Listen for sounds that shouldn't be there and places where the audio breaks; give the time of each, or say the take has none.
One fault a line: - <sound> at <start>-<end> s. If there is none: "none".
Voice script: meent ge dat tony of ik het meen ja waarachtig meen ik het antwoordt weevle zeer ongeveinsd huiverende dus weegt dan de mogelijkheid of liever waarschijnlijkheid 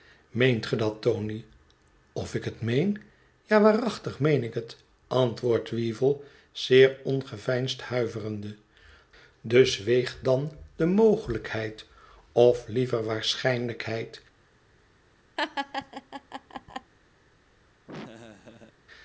- laugh at 15.4-16.9 s
- laugh at 17.9-18.8 s